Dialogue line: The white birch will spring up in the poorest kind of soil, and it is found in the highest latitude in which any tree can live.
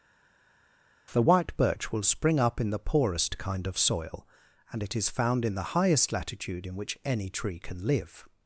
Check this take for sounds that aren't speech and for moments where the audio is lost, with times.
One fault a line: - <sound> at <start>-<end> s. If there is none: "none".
none